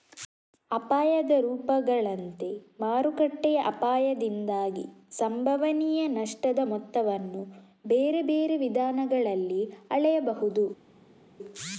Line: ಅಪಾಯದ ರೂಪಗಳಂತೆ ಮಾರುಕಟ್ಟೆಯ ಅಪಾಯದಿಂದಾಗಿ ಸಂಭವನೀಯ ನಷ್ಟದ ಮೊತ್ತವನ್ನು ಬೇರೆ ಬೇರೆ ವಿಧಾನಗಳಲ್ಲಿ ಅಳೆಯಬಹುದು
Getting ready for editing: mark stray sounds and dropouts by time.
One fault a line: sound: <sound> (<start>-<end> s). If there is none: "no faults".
no faults